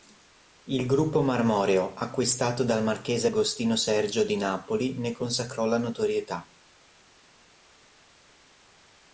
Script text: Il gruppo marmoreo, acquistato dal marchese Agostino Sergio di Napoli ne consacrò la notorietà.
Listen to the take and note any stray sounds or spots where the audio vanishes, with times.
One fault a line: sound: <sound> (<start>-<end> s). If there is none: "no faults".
no faults